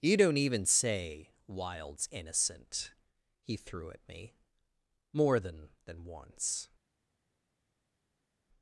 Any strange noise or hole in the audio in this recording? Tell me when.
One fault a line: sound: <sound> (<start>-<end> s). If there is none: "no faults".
no faults